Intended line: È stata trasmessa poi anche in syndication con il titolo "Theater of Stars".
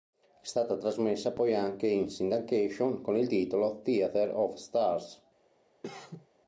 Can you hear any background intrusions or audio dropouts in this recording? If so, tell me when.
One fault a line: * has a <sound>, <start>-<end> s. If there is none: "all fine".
* has a cough, 5.8-6.3 s